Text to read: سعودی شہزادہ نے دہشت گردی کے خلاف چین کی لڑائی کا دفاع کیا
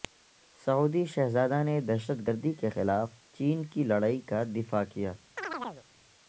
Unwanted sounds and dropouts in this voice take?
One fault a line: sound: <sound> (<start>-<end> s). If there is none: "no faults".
sound: chirp (5.4-5.9 s)